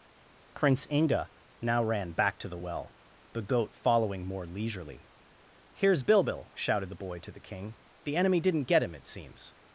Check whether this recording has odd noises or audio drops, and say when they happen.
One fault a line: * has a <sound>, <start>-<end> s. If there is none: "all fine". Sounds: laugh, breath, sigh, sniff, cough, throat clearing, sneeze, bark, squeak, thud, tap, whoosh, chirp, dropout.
all fine